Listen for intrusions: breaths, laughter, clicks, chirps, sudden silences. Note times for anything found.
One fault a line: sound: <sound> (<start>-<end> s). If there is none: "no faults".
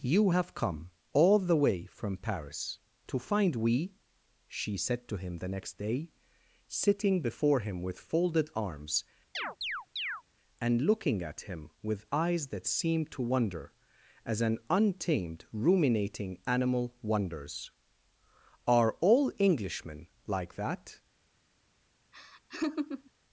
sound: chirp (9.3-10.2 s)
sound: laugh (22.1-23.1 s)